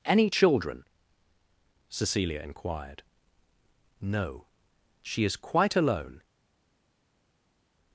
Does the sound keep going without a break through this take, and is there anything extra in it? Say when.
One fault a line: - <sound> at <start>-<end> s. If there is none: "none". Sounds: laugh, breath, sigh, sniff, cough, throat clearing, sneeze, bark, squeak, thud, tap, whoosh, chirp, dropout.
none